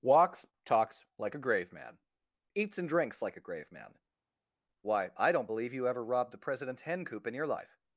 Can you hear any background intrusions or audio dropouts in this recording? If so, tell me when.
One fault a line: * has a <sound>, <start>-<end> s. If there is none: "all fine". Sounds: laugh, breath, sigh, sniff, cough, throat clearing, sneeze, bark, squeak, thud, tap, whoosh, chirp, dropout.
all fine